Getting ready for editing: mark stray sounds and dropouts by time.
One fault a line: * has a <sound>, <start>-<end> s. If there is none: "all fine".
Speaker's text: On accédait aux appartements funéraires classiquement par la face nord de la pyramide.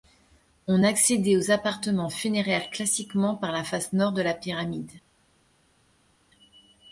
all fine